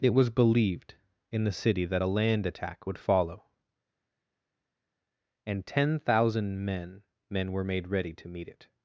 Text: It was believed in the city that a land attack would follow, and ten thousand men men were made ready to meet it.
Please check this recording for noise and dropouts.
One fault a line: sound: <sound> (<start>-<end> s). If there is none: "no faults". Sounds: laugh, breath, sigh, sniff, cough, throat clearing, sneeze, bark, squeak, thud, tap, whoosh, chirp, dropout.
no faults